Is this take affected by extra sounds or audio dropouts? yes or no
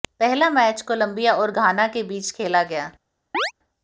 yes